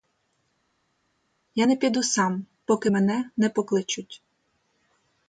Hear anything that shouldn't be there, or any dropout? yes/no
no